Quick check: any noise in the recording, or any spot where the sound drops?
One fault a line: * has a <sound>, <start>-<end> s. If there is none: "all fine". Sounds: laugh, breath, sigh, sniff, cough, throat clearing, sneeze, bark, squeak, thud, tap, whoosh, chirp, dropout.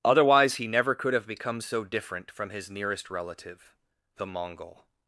all fine